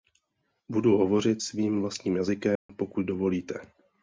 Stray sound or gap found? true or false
true